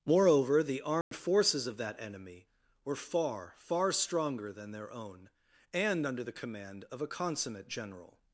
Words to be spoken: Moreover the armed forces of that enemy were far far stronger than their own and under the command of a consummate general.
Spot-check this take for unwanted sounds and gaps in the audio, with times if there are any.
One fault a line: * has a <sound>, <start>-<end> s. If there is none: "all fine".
* has a dropout, 1.0-1.1 s